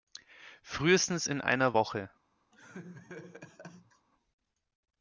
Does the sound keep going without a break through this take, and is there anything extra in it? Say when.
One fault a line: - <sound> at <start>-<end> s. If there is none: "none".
- laugh at 2.5-4.1 s